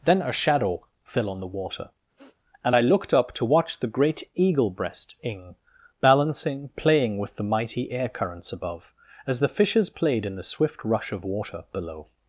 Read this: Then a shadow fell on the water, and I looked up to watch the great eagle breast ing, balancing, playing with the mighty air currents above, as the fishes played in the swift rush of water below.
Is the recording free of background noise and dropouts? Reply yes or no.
no